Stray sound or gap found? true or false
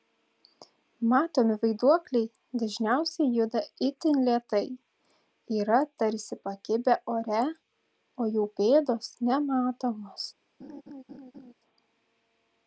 true